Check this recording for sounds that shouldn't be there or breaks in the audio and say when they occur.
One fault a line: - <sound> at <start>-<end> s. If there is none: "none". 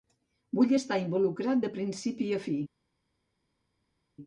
none